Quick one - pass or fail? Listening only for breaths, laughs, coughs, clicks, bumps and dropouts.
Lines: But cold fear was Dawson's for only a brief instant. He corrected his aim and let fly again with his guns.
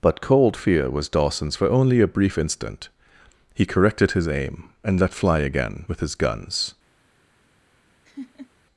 fail